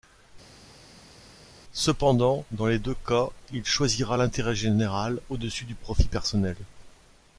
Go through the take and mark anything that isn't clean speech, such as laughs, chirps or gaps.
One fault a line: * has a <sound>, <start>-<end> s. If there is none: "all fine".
all fine